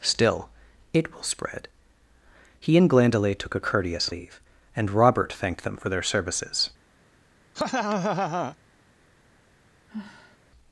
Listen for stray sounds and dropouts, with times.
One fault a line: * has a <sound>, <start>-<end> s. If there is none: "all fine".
* has a laugh, 7.5-8.6 s
* has a sigh, 9.9-10.4 s